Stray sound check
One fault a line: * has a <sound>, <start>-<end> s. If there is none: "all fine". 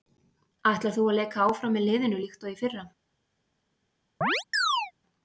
* has a chirp, 4.2-4.9 s